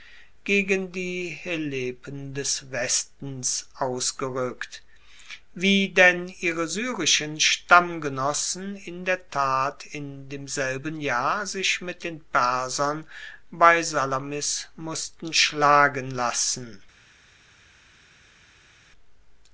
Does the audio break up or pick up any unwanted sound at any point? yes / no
no